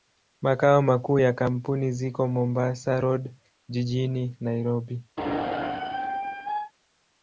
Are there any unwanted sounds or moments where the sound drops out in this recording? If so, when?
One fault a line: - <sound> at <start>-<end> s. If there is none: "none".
- squeak at 5.2-6.7 s